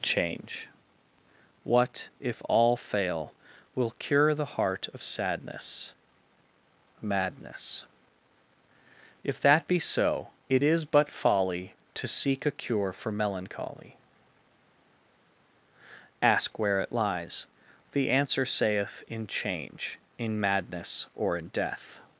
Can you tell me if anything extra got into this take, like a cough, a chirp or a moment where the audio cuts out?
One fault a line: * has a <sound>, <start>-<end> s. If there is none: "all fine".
all fine